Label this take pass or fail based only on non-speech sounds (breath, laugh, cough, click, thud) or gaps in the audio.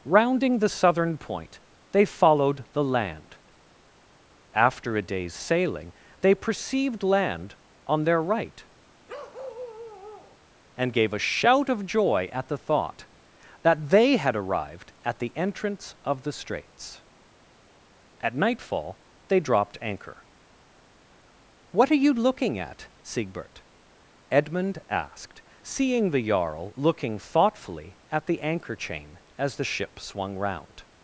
fail